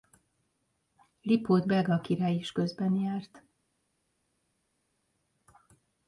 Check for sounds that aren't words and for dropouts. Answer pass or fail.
pass